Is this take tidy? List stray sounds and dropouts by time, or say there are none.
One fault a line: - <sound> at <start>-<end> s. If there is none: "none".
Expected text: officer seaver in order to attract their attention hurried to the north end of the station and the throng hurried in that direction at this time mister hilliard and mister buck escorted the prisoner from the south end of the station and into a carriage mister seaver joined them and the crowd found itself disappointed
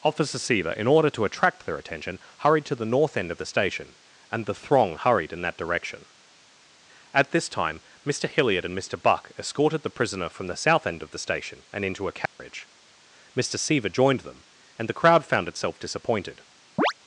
- dropout at 12.3-12.4 s
- chirp at 16.8-16.9 s